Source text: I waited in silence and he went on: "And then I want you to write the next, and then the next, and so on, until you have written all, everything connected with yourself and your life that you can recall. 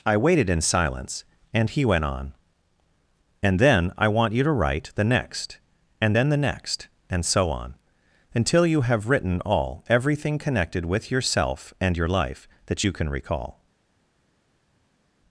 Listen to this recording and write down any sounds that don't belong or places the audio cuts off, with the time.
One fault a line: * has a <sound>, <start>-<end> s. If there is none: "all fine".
all fine